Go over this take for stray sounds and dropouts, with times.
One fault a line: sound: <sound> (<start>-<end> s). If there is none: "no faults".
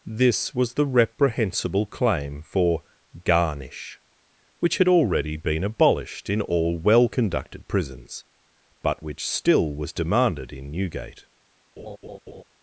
sound: laugh (11.8-12.4 s)